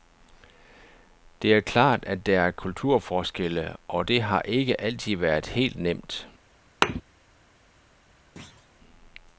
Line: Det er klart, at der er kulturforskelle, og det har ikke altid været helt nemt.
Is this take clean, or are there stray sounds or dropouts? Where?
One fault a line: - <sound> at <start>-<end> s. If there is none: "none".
- thud at 6.8-7.0 s
- thud at 8.4-8.7 s